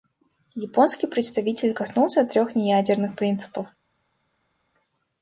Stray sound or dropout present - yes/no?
no